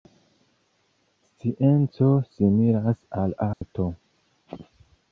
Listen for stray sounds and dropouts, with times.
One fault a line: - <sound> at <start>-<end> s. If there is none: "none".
- dropout at 3.5-3.6 s